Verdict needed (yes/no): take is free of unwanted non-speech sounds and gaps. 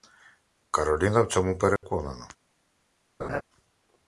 no